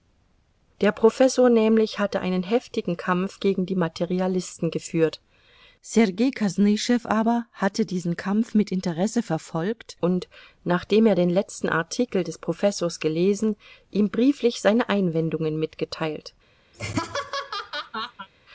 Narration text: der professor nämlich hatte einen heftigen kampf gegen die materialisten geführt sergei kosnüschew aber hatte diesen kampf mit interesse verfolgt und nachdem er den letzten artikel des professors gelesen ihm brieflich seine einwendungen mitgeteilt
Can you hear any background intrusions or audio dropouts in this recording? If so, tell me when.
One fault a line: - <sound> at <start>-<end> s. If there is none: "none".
- laugh at 16.7-18.3 s